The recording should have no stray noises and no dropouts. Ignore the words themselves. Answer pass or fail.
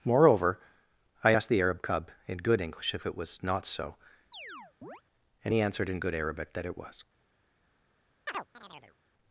fail